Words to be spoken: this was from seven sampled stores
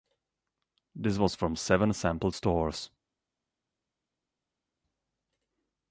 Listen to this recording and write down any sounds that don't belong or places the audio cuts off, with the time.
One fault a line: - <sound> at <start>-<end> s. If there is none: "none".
none